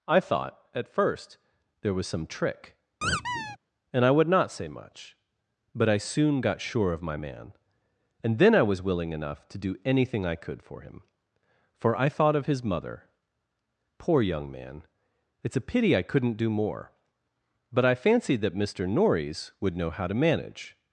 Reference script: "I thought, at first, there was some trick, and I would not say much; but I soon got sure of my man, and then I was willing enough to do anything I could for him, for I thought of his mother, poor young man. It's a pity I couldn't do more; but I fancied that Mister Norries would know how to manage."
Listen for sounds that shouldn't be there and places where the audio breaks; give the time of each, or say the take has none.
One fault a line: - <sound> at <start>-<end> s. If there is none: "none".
- squeak at 3.0-3.6 s